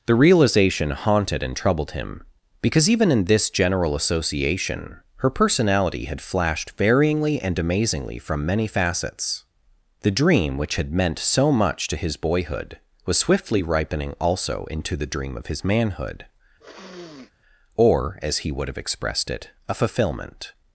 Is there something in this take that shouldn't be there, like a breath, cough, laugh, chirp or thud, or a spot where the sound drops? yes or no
yes